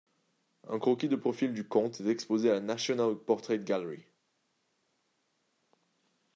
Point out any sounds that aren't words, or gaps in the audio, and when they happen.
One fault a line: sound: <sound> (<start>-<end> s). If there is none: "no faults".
no faults